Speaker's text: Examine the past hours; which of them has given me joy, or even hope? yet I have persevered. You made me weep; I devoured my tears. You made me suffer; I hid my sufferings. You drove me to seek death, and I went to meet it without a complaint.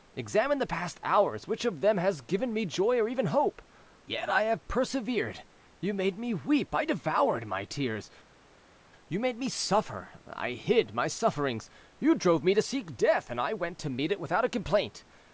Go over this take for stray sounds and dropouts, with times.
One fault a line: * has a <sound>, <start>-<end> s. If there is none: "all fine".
all fine